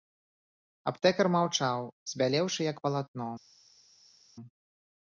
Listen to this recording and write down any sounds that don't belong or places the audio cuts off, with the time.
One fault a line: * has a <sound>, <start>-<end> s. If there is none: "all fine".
all fine